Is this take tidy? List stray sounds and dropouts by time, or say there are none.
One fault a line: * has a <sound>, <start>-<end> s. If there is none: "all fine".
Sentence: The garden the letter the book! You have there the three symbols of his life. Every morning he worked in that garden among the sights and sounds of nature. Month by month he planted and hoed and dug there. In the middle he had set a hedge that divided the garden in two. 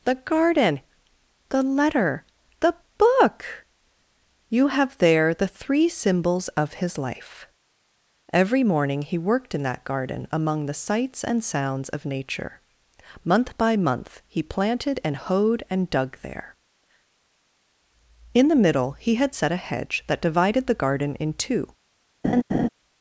* has a laugh, 22.2-22.7 s